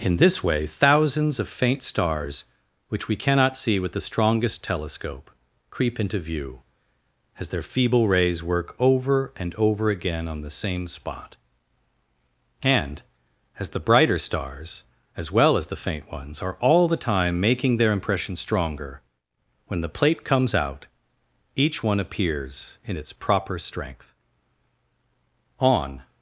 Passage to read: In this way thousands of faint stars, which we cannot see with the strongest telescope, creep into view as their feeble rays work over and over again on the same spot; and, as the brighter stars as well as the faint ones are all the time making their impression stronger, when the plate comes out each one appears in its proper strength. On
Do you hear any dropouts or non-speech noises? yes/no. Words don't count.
no